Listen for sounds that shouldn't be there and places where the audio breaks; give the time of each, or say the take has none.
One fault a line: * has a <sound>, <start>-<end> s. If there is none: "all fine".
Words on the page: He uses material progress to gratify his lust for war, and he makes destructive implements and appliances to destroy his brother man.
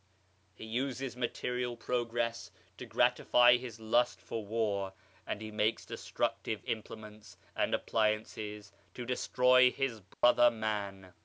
* has a dropout, 10.1-10.2 s